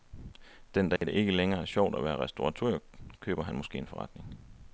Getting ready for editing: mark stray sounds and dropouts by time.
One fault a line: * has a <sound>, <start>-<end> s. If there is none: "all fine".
* has a dropout, 1.0-1.0 s